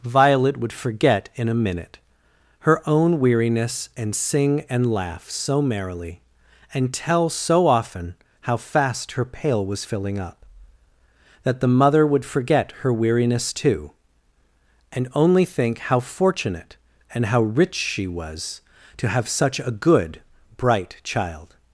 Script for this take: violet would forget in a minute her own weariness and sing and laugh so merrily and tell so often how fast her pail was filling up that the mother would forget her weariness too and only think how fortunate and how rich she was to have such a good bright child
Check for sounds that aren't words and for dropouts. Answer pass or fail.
pass